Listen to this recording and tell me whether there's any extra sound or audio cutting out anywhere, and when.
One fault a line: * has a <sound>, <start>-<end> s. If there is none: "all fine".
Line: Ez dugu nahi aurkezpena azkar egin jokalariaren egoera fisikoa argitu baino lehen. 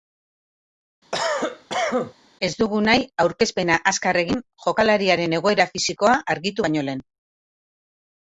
* has a cough, 1.1-2.1 s